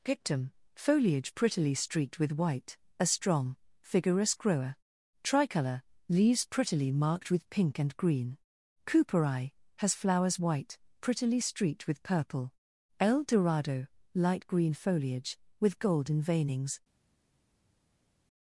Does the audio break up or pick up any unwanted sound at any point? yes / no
no